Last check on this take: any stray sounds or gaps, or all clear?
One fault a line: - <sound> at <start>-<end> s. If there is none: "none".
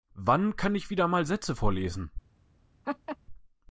- laugh at 2.8-3.2 s